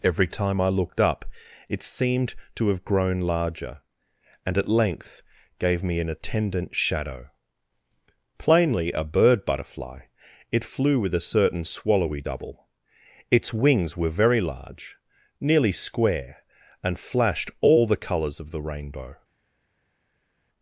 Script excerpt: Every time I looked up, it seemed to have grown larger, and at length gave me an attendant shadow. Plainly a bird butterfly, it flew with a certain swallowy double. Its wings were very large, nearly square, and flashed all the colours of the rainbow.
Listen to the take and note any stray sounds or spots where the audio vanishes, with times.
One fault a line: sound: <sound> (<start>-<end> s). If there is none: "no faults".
no faults